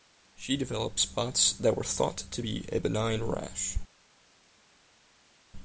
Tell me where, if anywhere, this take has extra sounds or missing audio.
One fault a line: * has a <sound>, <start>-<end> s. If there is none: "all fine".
all fine